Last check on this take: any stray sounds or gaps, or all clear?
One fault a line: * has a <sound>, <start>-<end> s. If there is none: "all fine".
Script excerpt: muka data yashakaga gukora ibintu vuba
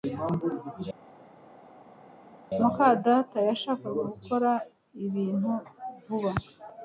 all fine